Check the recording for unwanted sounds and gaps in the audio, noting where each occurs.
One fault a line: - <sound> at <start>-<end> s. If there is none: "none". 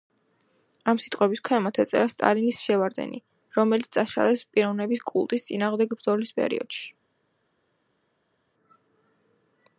none